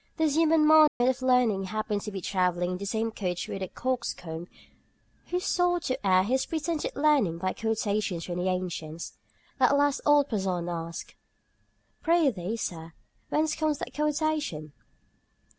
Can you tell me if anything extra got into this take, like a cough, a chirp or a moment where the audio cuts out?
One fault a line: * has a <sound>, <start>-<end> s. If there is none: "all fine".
* has a dropout, 0.9-1.0 s